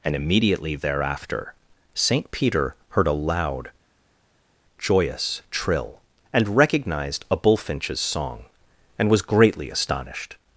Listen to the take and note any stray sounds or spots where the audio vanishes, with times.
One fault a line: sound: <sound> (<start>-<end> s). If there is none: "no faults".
no faults